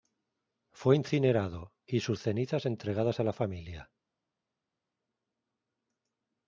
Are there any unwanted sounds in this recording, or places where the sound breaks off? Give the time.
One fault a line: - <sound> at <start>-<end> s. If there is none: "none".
none